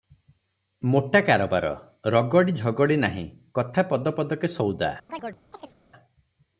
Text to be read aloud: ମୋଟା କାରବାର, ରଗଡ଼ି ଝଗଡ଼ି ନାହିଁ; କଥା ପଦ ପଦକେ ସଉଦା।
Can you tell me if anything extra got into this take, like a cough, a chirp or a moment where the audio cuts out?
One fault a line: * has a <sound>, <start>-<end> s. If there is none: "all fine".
* has a chirp, 5.1-5.8 s